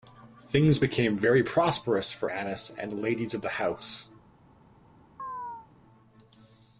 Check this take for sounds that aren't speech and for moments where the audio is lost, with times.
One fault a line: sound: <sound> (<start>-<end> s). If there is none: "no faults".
sound: chirp (5.2-5.7 s)